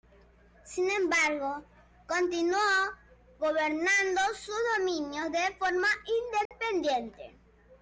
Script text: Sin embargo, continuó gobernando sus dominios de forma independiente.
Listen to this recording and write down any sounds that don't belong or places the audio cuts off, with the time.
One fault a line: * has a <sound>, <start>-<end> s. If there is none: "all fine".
* has a dropout, 6.5-6.5 s